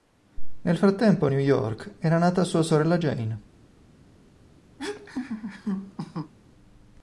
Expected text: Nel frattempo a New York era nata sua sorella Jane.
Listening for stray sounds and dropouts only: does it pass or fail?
fail